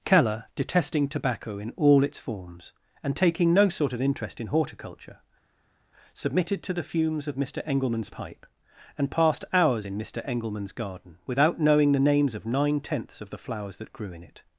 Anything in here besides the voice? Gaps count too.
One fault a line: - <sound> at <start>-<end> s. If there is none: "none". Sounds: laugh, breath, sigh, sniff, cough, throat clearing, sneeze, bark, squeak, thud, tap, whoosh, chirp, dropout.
none